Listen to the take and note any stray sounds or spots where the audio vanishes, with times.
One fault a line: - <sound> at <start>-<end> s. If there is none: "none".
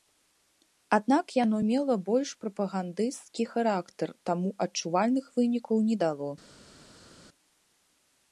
none